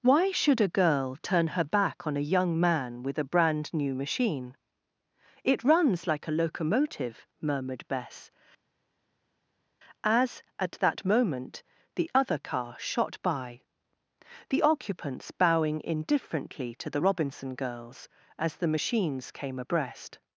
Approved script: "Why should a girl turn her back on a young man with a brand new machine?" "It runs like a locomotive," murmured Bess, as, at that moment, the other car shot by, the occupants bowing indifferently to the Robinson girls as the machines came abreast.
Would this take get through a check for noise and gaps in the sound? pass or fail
pass